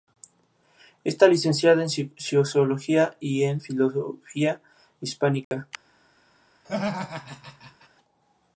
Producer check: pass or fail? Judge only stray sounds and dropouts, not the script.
fail